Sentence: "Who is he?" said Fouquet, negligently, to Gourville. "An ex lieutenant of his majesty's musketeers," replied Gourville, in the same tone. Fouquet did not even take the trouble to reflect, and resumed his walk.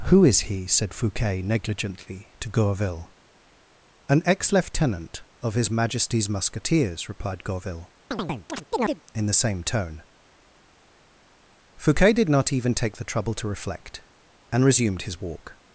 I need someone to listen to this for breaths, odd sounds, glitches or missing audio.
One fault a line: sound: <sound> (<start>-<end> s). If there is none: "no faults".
sound: chirp (8.1-9.0 s)